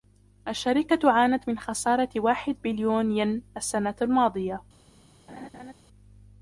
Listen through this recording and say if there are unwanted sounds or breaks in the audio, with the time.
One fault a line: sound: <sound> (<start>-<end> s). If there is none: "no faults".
sound: laugh (5.3-5.7 s)